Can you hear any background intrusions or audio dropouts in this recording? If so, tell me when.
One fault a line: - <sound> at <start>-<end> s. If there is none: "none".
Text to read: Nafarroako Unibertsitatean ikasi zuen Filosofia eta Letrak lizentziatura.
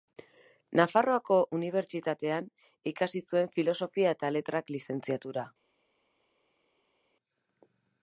none